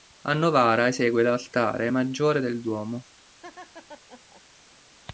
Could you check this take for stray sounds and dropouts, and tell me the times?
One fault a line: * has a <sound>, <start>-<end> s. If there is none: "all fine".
* has a laugh, 3.4-4.4 s